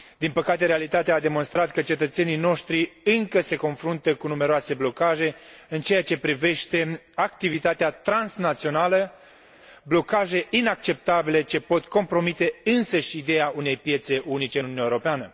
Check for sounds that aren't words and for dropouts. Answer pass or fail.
pass